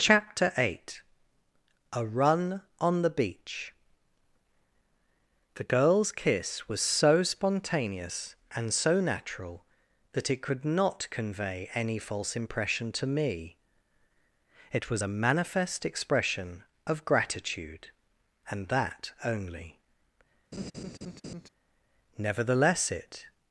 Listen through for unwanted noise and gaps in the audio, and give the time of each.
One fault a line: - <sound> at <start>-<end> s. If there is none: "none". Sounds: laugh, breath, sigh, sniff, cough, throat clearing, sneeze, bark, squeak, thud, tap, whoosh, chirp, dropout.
- laugh at 20.5-21.5 s